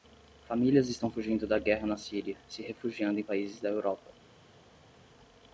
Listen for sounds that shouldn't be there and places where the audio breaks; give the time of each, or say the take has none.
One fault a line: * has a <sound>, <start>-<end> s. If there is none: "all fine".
all fine